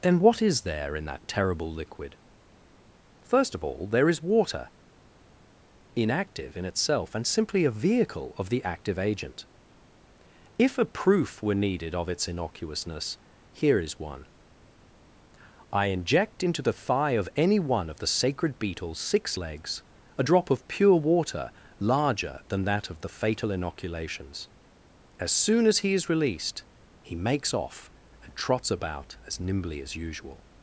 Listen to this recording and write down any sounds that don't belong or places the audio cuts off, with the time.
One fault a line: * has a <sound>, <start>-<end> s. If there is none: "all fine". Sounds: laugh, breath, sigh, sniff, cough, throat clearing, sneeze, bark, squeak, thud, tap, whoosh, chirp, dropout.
all fine